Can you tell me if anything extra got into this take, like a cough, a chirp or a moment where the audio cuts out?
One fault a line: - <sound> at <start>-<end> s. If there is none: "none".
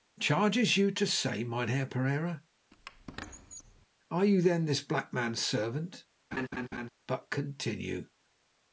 - squeak at 2.7-3.9 s
- laugh at 6.3-6.9 s